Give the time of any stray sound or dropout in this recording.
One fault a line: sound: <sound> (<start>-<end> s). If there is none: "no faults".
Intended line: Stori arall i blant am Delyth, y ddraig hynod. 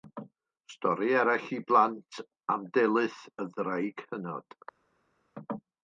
no faults